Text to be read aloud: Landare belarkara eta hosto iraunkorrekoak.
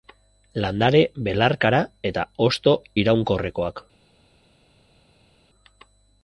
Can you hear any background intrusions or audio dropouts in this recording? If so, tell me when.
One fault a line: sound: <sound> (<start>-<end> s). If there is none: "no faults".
no faults